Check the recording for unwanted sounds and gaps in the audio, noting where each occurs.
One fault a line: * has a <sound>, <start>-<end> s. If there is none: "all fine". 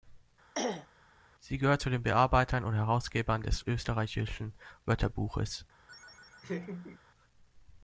* has a throat clearing, 0.5-0.9 s
* has a laugh, 5.9-7.0 s